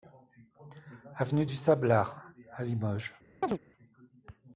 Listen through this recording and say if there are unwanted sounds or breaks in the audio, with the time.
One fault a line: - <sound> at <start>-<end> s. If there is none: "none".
- chirp at 3.4-3.6 s